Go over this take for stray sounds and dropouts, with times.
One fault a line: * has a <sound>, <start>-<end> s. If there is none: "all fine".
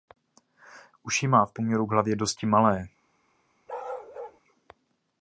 * has a bark, 3.7-4.4 s